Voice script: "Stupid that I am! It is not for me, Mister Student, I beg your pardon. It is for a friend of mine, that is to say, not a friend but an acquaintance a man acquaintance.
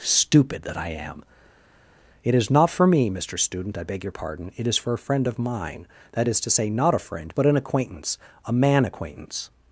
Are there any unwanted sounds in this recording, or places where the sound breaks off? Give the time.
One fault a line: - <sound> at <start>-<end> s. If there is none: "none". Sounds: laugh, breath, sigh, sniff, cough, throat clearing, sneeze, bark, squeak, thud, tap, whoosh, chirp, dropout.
none